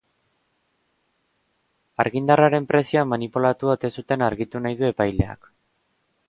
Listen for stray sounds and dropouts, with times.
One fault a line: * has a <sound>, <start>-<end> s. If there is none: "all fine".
all fine